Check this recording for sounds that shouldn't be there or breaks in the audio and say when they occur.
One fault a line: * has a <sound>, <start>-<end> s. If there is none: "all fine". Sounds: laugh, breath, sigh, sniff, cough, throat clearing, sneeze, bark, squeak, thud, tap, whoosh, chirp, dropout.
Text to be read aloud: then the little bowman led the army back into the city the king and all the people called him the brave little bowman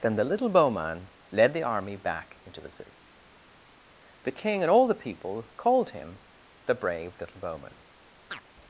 * has a chirp, 8.3-8.4 s